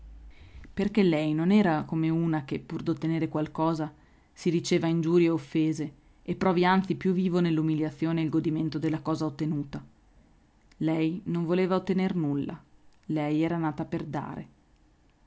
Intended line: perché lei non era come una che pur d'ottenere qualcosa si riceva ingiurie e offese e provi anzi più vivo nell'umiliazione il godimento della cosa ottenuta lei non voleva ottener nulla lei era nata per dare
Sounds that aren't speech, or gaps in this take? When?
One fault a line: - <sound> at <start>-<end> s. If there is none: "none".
none